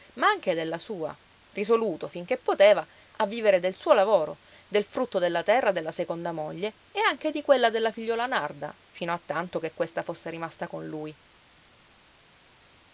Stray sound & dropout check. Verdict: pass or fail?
pass